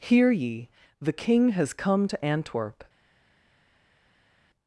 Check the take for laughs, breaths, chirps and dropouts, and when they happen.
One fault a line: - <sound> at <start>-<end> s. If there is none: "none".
none